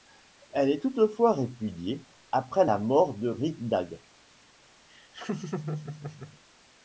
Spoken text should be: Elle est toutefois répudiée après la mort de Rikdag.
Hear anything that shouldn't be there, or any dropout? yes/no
yes